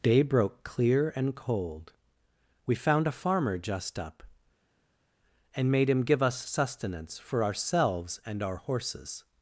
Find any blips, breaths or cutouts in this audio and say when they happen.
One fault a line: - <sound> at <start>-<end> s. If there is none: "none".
none